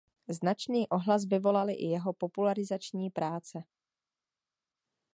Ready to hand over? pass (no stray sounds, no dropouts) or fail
pass